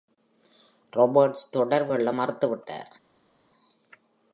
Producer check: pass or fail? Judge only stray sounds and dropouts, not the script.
pass